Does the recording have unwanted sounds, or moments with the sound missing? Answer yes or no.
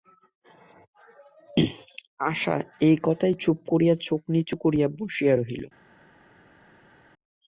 no